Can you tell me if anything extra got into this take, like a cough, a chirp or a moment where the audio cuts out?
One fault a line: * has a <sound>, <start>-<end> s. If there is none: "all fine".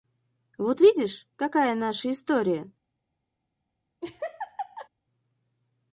* has a laugh, 4.0-4.9 s